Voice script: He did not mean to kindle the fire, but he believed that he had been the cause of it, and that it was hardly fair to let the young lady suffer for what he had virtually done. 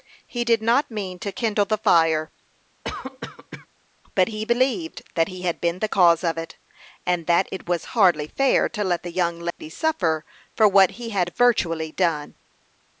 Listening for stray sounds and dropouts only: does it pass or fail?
fail